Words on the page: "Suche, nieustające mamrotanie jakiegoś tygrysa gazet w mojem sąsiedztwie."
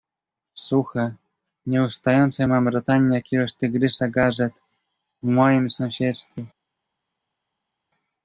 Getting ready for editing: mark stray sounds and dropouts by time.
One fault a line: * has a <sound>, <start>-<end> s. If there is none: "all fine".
all fine